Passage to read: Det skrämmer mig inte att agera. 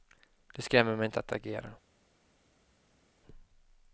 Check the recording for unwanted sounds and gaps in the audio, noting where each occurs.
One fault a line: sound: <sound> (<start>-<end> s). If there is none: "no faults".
no faults